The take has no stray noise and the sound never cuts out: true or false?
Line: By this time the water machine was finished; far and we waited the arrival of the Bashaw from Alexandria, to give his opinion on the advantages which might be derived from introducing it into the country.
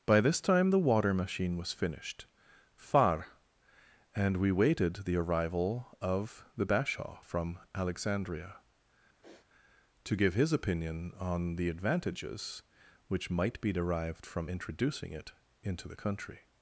false